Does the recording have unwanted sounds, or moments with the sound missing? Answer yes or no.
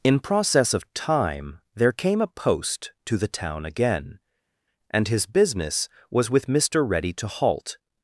no